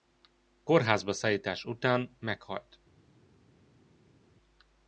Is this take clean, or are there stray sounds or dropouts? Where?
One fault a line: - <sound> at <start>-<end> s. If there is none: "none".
none